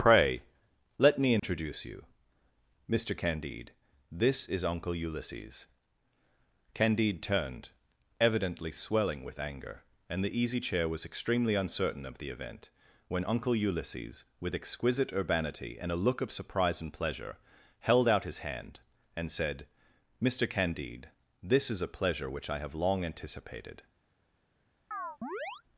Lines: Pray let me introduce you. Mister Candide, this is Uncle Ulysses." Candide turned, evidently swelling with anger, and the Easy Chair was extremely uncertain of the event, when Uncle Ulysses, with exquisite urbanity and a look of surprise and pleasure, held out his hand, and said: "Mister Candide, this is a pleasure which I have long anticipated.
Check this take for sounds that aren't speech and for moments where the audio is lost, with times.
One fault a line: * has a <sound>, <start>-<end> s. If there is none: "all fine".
* has a dropout, 1.4-1.4 s
* has a chirp, 24.9-25.6 s